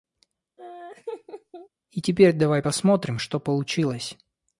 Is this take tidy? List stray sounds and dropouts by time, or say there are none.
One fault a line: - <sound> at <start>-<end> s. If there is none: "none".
- laugh at 0.6-1.7 s